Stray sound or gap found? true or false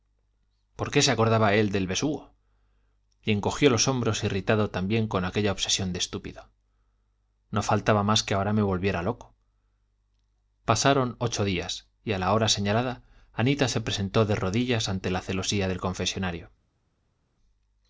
false